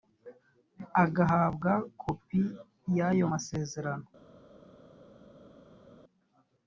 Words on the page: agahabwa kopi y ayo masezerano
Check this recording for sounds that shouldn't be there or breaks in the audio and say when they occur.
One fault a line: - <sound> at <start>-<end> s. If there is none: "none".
none